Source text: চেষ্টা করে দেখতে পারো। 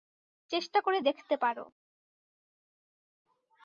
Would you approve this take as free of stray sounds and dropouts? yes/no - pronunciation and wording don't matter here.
yes